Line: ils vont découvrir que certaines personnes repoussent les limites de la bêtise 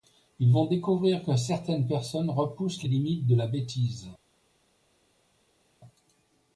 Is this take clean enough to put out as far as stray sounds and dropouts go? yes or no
yes